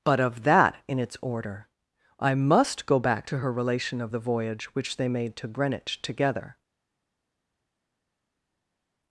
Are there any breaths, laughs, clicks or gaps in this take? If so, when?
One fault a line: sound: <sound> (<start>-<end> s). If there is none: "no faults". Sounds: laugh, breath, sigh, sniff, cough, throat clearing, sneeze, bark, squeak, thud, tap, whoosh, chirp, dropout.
no faults